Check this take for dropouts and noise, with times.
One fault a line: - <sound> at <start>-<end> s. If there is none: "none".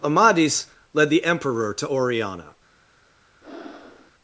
- breath at 3.4-4.1 s